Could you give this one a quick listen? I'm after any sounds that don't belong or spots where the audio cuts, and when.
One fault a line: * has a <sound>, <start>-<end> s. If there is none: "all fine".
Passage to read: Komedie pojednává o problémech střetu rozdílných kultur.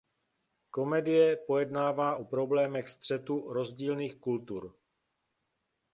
all fine